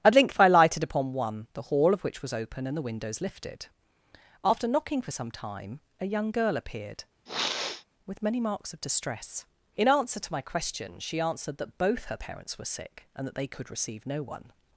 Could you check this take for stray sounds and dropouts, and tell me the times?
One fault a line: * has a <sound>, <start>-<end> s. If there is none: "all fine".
* has a sniff, 7.3-7.9 s